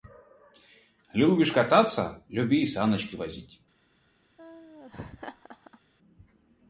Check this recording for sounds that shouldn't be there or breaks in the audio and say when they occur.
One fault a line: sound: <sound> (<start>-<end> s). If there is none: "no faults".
sound: laugh (4.4-5.8 s)